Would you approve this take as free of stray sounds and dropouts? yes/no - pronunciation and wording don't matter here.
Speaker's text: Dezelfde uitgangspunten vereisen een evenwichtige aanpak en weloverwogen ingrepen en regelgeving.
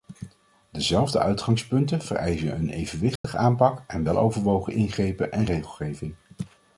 no